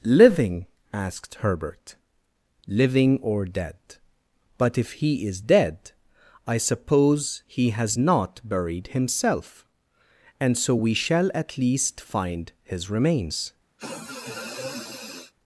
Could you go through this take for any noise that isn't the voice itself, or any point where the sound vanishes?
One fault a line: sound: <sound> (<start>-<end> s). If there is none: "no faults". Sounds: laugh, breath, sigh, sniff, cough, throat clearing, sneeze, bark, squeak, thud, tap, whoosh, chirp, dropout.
sound: sniff (13.8-15.3 s)